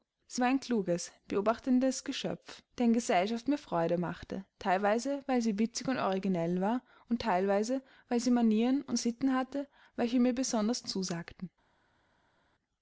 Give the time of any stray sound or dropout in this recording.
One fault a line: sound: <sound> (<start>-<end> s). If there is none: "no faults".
no faults